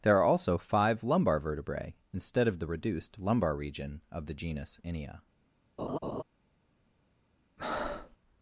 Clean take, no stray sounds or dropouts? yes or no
no